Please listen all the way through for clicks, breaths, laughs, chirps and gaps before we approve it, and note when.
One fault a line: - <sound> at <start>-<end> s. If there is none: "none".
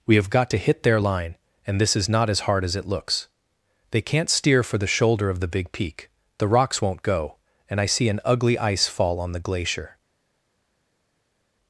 none